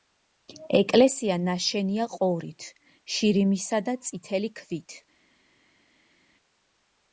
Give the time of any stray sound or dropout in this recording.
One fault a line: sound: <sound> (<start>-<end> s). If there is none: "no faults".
no faults